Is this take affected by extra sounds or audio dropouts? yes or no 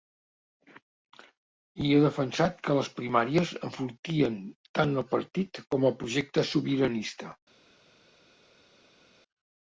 no